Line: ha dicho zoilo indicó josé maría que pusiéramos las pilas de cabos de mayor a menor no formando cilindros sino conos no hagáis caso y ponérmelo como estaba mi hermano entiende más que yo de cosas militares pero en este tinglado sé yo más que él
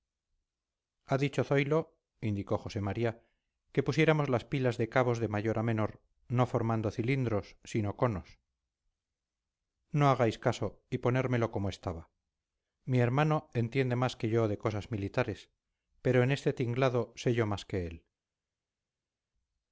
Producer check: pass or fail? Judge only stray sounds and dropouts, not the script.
pass